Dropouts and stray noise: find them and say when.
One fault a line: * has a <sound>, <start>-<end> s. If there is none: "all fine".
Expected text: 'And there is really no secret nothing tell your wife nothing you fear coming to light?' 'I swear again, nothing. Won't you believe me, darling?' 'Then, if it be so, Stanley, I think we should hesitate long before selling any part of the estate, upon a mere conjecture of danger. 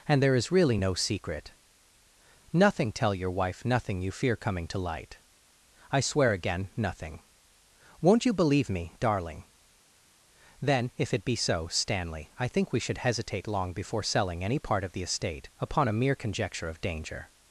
all fine